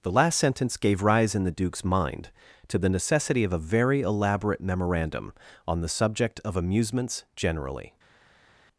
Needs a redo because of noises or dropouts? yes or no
no